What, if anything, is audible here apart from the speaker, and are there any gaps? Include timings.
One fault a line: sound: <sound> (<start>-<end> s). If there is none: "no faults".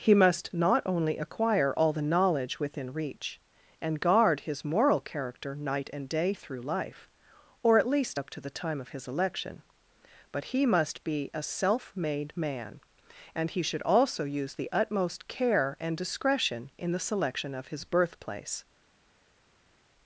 no faults